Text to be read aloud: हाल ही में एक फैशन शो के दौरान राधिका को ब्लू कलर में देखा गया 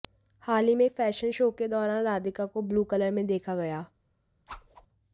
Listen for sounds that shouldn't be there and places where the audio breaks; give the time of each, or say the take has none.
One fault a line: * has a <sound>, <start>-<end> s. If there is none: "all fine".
* has a whoosh, 4.5-4.9 s